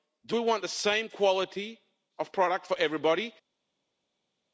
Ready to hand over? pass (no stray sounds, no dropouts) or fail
pass